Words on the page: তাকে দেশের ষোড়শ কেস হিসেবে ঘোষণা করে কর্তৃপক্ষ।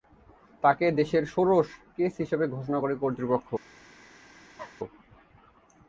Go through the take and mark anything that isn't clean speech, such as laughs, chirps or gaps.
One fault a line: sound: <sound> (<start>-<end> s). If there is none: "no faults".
sound: cough (4.6-4.8 s)